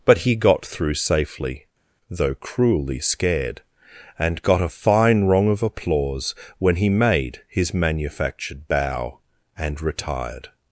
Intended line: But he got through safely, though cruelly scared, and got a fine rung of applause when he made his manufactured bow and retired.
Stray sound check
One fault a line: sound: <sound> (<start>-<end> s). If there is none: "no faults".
no faults